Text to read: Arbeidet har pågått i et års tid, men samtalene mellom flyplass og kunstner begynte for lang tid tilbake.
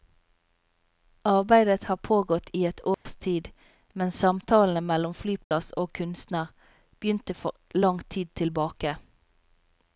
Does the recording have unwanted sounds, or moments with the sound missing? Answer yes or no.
yes